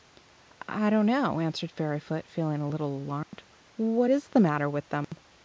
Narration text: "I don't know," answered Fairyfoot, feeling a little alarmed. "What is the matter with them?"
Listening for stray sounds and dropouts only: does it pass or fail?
fail